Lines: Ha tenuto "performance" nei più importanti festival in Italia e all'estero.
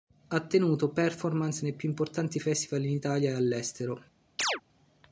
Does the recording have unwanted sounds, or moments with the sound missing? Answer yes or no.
yes